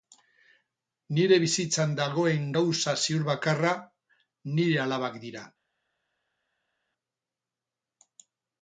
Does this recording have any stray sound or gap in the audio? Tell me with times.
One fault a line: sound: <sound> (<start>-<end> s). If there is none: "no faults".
no faults